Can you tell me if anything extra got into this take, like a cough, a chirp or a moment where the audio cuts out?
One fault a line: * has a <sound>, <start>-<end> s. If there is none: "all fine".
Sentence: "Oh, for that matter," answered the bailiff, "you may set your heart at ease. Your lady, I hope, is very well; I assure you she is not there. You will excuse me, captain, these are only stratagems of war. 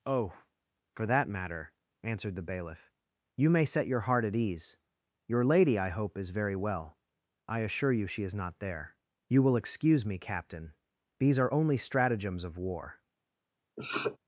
* has a sniff, 13.8-14.2 s